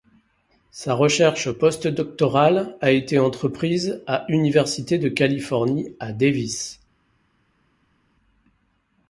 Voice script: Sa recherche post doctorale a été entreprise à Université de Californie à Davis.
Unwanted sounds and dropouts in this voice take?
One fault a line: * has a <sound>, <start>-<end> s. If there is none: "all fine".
all fine